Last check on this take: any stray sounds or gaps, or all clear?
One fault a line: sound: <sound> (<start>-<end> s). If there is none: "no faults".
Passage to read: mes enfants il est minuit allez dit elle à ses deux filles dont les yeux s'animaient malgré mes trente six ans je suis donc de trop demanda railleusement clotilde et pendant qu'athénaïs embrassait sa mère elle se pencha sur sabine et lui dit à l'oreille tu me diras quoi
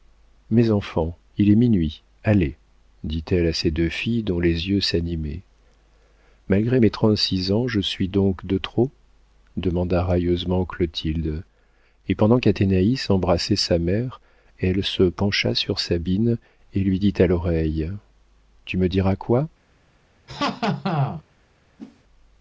sound: laugh (20.3-21.2 s)
sound: whoosh (21.8-22.0 s)